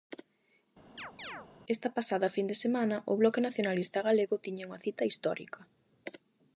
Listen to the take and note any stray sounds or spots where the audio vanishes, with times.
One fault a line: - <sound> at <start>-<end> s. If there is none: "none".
- chirp at 1.0-1.5 s